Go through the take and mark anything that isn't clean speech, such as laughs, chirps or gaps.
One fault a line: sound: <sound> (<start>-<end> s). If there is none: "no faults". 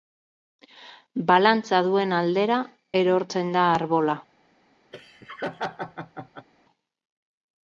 sound: laugh (4.9-6.5 s)